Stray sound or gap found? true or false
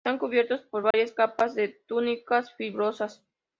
true